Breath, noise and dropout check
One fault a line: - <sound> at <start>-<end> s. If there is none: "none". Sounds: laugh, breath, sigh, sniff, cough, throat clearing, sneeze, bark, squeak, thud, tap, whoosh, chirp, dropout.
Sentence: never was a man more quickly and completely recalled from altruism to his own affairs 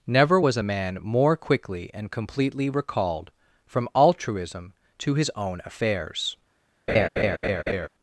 - laugh at 6.9-7.9 s